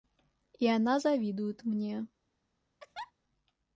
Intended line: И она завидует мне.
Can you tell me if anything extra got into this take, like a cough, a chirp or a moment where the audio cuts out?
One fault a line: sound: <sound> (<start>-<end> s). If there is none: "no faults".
sound: laugh (2.8-3.1 s)